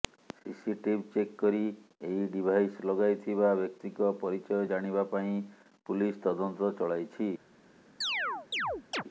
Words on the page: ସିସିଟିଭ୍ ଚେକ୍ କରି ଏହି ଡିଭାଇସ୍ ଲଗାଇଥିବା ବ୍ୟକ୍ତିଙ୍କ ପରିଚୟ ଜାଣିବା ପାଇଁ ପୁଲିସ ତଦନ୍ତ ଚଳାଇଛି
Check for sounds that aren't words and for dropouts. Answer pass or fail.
fail